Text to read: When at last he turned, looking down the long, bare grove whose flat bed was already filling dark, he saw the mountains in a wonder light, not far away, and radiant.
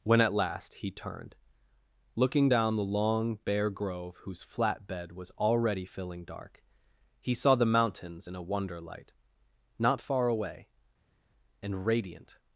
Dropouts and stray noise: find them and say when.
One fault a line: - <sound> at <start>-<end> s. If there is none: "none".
none